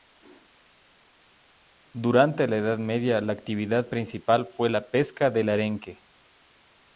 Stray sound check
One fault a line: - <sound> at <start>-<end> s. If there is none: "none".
none